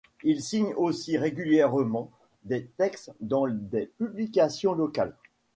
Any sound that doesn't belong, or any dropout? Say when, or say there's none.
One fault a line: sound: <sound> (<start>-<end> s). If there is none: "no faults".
no faults